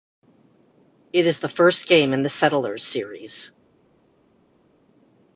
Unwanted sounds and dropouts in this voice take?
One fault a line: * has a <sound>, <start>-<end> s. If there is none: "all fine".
all fine